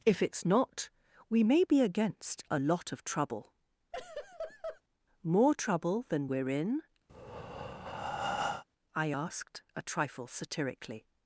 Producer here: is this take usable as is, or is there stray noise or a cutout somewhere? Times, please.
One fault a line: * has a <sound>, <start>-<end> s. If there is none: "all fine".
* has a laugh, 3.9-4.8 s
* has a breath, 7.1-8.6 s